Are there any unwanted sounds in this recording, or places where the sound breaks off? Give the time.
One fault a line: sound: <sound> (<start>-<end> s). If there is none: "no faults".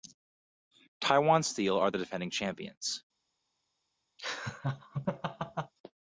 sound: laugh (4.2-5.7 s)